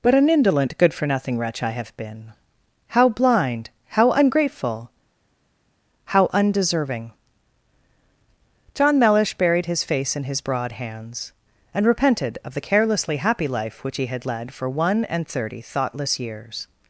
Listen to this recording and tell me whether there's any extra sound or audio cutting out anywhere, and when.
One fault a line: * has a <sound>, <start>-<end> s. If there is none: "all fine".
all fine